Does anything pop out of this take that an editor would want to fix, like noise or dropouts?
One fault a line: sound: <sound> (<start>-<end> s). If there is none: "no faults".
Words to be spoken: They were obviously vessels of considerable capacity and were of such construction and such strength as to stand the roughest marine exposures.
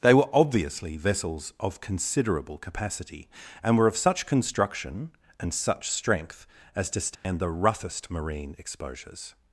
sound: dropout (7.2-7.2 s)